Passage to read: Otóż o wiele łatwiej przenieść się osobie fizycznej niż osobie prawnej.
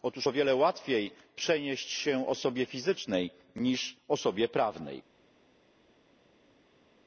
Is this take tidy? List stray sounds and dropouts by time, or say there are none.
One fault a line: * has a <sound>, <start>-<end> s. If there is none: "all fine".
all fine